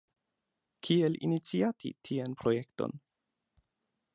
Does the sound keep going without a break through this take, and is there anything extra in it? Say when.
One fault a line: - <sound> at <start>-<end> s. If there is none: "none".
none